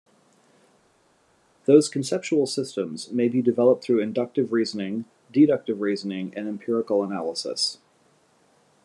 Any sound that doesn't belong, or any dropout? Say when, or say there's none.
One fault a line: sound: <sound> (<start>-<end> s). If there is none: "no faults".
no faults